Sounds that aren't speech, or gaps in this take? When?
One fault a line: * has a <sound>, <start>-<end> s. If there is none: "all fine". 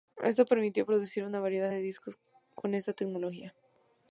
all fine